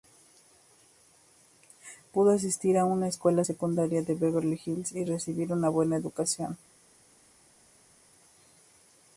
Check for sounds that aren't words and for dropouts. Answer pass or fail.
pass